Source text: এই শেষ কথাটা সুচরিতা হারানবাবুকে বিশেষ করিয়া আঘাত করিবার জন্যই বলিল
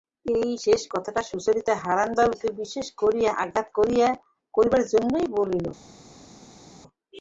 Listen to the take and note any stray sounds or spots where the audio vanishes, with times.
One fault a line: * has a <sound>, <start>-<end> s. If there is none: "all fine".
all fine